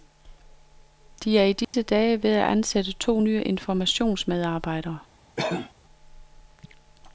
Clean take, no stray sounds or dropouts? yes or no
no